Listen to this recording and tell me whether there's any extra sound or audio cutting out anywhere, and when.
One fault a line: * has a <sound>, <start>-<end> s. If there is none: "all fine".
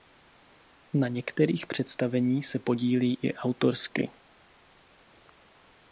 all fine